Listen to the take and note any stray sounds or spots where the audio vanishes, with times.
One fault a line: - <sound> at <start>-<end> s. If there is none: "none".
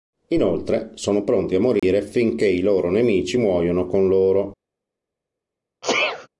- dropout at 1.8-1.8 s
- sneeze at 5.8-6.3 s